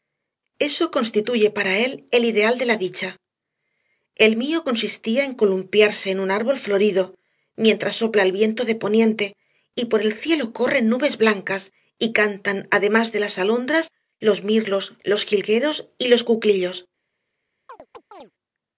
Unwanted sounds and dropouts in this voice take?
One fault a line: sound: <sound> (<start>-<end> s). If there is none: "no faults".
sound: chirp (17.7-18.3 s)